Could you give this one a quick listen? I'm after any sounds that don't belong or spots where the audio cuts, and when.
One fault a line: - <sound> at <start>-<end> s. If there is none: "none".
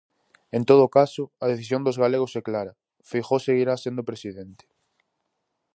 none